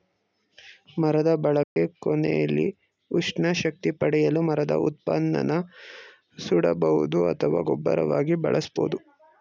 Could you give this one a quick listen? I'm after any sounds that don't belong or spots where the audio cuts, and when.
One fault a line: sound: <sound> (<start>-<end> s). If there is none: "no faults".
sound: dropout (1.6-1.8 s)